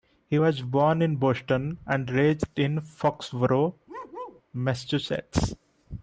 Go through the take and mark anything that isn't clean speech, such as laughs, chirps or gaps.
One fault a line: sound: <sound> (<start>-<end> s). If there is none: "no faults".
sound: bark (3.9-4.4 s)